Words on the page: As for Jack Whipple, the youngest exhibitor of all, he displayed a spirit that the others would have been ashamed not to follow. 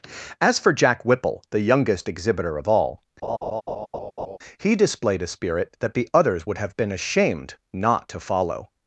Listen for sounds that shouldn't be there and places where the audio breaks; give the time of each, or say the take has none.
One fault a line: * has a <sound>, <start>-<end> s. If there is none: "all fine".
* has a laugh, 3.2-4.4 s